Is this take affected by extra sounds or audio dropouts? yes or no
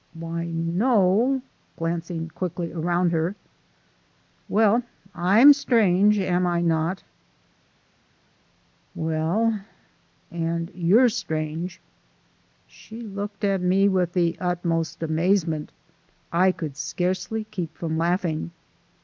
no